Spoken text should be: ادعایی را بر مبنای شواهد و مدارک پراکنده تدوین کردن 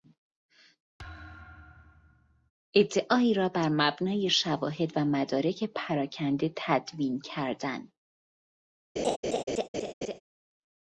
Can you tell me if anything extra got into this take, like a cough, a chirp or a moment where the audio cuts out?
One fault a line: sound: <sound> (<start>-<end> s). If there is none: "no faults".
sound: thud (1.0-2.5 s)
sound: laugh (9.0-10.2 s)